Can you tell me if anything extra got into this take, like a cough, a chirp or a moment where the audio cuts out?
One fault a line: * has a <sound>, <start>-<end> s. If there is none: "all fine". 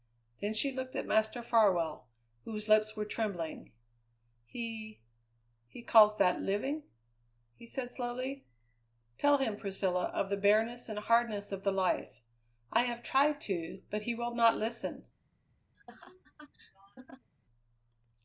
* has a laugh, 15.7-17.3 s